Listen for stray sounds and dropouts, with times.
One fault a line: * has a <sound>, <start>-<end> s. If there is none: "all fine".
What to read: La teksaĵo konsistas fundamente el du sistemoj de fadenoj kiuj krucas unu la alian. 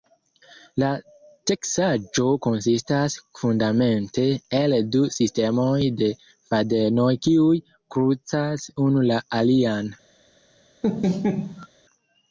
* has a laugh, 10.8-11.7 s